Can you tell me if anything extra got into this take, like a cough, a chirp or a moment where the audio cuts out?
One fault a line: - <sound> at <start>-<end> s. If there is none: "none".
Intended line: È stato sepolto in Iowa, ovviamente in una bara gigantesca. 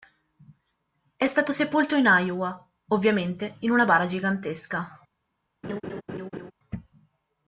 - laugh at 5.6-6.5 s